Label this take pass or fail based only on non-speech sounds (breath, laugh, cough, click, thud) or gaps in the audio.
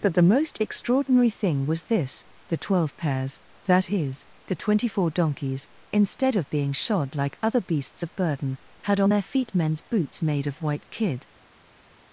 pass